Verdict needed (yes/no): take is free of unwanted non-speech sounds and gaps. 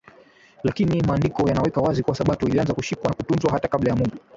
yes